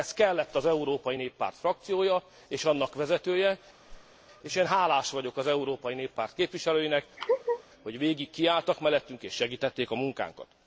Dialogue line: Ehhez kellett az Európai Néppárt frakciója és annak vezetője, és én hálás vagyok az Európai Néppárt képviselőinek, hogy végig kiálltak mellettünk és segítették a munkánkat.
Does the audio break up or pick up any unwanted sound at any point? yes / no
yes